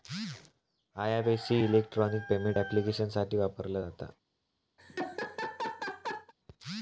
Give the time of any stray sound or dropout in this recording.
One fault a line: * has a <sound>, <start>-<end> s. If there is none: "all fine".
* has a laugh, 4.8-6.3 s